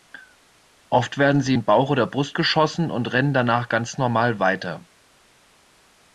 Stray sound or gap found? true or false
false